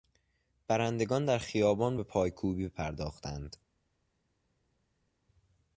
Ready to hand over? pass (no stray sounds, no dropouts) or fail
pass